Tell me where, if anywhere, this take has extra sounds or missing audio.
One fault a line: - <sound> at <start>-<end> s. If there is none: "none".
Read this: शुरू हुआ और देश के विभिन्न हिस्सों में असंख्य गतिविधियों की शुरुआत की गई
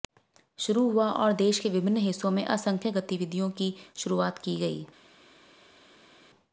none